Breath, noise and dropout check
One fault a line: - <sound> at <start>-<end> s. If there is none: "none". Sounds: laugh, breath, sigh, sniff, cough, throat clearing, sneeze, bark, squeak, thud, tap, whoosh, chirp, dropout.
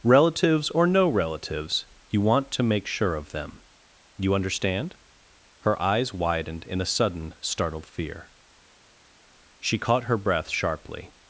none